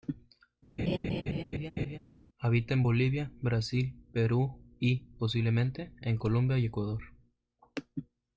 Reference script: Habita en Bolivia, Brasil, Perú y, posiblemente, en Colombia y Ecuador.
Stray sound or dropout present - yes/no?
yes